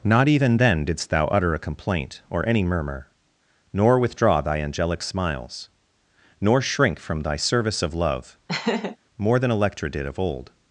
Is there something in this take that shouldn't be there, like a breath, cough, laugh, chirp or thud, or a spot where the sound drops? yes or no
yes